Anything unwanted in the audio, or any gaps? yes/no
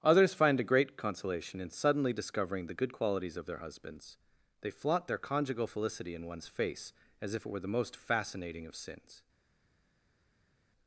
no